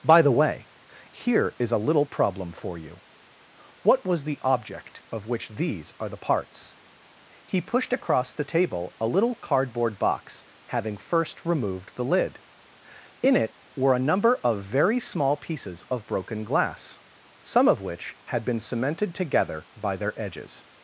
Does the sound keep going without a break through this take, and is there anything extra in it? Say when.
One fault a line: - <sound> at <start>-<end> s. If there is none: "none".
none